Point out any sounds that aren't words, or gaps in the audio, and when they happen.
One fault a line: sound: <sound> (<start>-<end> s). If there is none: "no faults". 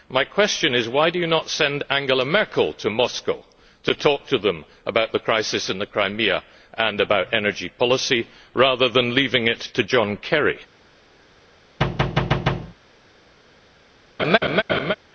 sound: thud (11.8-12.7 s)
sound: laugh (14.2-14.9 s)